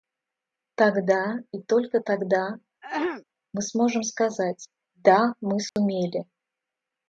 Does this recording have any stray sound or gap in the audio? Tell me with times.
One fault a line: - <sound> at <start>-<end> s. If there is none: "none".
- throat clearing at 2.8-3.2 s
- dropout at 5.7-5.8 s